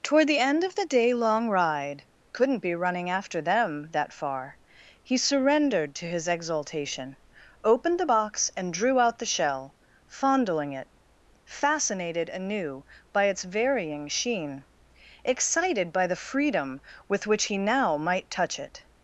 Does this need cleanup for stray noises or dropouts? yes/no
no